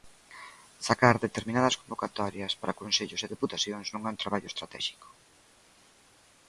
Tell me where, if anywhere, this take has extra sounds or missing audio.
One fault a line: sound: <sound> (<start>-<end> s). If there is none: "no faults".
no faults